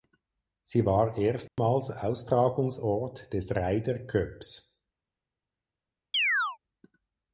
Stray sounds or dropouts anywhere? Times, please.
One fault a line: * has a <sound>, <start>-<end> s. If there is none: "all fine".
* has a dropout, 1.5-1.6 s
* has a chirp, 6.1-6.6 s